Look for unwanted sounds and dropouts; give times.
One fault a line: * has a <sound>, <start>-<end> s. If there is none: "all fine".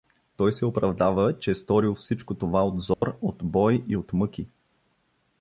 * has a dropout, 2.9-3.0 s